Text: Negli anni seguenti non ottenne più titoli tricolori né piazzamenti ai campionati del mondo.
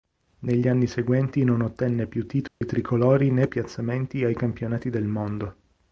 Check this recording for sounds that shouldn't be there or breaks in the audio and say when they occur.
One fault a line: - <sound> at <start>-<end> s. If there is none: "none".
- dropout at 2.5-2.6 s